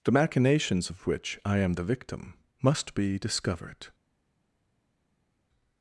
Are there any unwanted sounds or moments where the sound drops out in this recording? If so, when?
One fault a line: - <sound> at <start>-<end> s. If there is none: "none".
none